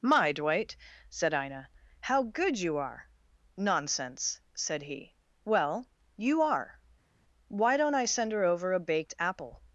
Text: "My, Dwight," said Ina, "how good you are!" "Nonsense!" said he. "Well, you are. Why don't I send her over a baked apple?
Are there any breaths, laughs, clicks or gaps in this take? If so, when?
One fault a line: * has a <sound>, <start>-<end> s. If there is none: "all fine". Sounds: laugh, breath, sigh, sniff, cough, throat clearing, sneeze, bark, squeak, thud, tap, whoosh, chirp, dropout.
all fine